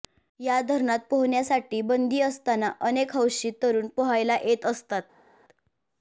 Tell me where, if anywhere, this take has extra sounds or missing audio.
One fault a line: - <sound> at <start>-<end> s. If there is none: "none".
none